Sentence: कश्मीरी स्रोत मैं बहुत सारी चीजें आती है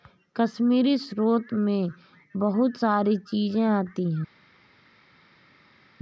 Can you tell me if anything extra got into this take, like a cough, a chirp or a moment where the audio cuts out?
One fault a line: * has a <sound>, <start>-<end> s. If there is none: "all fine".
all fine